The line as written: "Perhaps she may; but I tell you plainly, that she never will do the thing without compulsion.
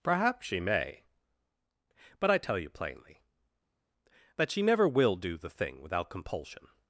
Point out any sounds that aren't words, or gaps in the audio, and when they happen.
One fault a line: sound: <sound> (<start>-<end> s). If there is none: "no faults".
no faults